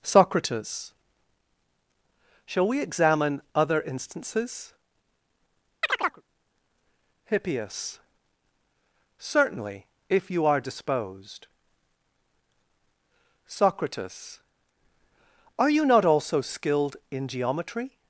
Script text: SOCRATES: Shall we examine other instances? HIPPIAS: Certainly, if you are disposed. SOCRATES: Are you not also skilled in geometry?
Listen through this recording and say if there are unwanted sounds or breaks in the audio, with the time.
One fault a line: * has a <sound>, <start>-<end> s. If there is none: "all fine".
* has a chirp, 5.8-6.2 s